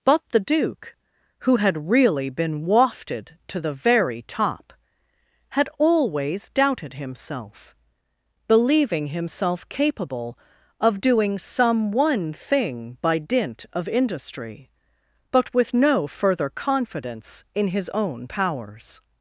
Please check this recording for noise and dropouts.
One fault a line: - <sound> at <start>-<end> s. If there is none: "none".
none